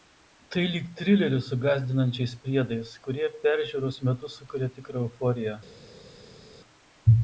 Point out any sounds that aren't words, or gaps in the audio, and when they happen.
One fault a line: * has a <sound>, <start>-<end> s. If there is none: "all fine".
all fine